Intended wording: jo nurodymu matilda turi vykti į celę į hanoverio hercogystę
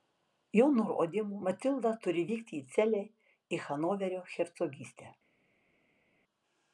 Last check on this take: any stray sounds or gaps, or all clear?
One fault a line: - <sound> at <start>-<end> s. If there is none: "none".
none